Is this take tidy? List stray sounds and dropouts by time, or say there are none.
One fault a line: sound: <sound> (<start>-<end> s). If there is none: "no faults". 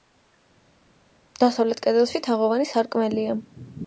no faults